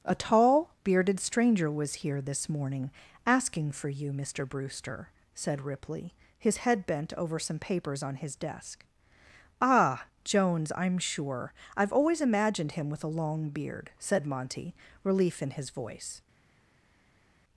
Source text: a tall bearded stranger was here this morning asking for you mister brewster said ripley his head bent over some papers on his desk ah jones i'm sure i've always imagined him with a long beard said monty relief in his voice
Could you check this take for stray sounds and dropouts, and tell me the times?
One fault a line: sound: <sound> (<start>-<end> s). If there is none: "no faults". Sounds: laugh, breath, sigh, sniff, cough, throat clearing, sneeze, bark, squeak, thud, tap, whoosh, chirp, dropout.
no faults